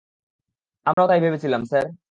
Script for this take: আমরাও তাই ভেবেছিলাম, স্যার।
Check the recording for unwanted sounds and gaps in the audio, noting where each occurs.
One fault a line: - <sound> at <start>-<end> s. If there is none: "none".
- dropout at 0.9-1.0 s